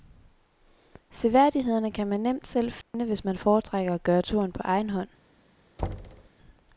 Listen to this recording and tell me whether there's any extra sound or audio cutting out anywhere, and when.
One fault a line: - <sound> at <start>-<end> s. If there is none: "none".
- dropout at 2.8-2.9 s
- thud at 5.8-6.3 s